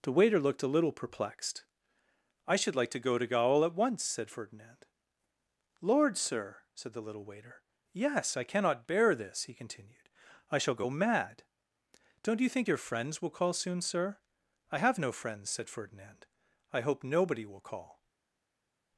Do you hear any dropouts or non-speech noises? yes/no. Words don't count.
no